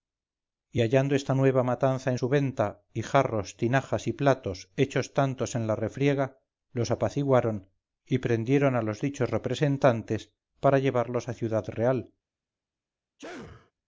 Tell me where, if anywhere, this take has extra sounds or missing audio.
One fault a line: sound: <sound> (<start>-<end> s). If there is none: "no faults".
sound: sneeze (13.2-13.7 s)